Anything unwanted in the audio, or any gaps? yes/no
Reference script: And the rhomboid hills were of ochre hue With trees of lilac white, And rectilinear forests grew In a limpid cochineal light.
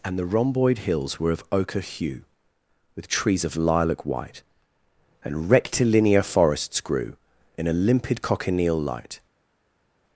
no